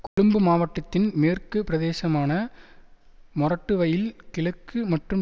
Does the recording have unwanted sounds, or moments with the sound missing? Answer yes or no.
yes